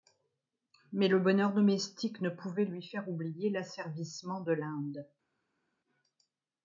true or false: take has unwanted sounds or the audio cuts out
false